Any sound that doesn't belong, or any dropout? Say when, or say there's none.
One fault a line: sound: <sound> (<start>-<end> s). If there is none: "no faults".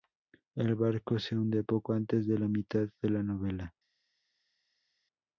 no faults